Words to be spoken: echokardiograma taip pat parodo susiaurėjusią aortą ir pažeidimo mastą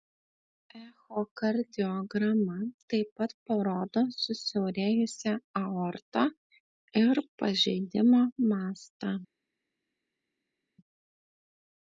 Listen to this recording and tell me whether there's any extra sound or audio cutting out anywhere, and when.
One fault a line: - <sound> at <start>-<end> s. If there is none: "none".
none